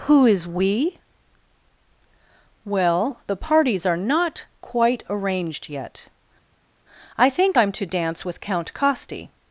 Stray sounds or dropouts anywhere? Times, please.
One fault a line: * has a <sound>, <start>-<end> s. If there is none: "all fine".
all fine